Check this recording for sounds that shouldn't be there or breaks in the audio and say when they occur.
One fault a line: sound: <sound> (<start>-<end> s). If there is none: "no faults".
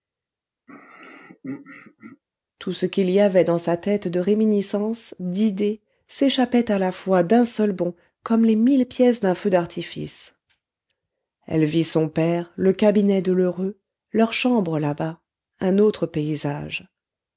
sound: throat clearing (0.7-2.2 s)